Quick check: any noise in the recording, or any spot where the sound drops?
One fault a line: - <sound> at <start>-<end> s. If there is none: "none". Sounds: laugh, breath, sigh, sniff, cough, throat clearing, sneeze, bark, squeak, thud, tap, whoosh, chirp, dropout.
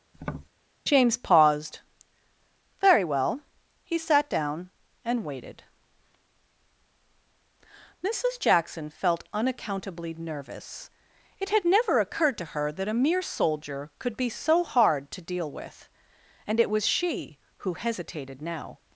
- tap at 0.1-0.5 s